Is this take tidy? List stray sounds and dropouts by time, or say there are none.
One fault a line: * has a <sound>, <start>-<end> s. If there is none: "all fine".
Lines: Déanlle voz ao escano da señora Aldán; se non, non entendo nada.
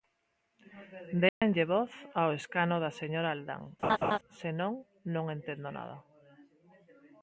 * has a dropout, 1.3-1.4 s
* has a laugh, 3.8-4.2 s